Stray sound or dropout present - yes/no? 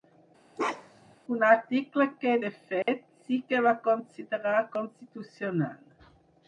yes